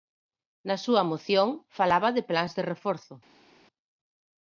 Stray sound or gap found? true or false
false